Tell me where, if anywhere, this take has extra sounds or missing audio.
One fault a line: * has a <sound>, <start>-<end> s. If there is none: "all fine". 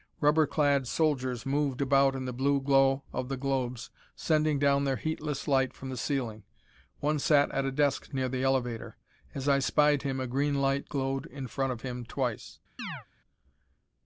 * has a chirp, 12.8-13.1 s